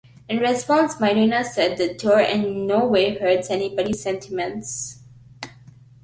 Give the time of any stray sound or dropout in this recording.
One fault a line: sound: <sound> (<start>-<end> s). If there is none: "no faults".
no faults